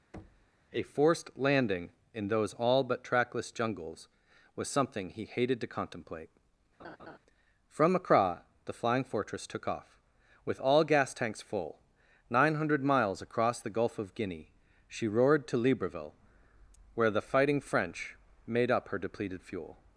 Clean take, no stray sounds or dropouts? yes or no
no